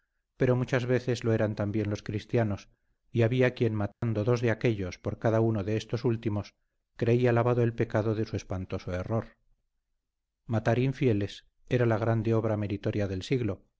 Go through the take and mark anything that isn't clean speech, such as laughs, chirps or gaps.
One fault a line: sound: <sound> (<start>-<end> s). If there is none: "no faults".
sound: dropout (3.9-4.0 s)